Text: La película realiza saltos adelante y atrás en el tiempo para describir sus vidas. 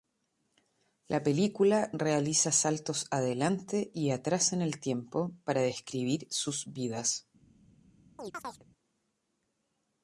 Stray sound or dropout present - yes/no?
yes